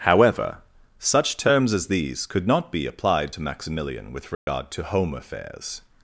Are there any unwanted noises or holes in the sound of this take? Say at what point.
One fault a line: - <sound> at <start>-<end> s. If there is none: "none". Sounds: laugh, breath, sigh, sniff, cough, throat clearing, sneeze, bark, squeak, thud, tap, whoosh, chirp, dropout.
- dropout at 4.3-4.5 s